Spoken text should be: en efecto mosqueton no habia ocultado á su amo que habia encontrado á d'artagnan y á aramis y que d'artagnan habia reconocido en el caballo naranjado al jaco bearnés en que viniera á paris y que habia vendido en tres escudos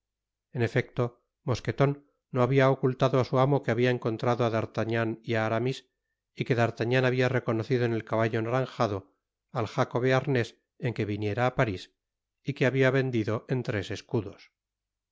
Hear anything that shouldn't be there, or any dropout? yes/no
no